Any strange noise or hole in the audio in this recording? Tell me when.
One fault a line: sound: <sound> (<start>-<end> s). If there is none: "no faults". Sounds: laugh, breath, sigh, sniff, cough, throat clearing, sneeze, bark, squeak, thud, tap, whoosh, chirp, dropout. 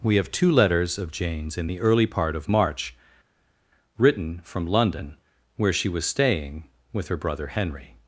no faults